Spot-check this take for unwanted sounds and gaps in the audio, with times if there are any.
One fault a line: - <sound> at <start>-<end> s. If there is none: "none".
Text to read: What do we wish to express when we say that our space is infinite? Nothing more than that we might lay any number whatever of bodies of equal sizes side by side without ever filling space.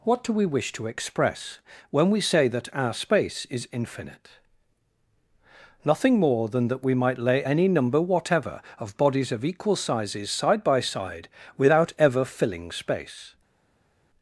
none